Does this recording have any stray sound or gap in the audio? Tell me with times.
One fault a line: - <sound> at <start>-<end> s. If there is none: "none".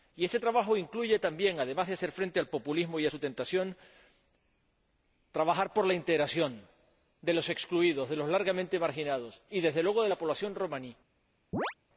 - chirp at 11.5-11.7 s